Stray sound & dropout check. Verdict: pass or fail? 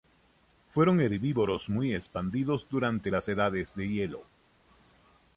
pass